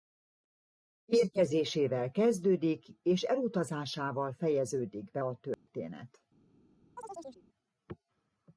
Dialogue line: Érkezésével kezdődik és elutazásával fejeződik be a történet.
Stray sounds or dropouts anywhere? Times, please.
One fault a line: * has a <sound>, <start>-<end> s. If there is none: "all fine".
* has a dropout, 5.5-5.7 s
* has a chirp, 7.0-7.4 s